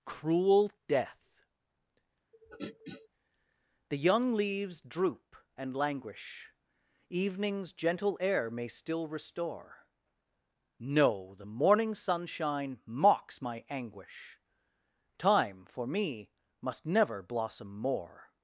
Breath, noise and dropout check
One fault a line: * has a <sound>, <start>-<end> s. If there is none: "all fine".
* has a throat clearing, 2.3-3.1 s